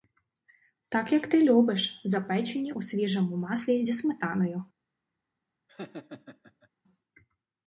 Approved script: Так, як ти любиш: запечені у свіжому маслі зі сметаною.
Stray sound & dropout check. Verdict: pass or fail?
fail